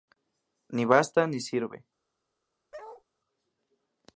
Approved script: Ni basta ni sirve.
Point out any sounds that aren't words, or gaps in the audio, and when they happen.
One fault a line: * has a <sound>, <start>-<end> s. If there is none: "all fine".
* has a bark, 2.7-3.0 s